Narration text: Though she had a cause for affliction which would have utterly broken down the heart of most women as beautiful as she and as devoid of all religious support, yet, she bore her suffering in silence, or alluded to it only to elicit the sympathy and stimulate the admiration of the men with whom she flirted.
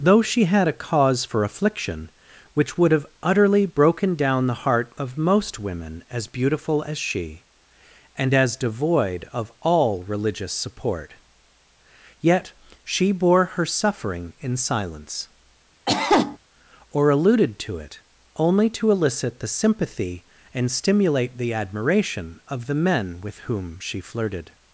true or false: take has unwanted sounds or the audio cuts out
true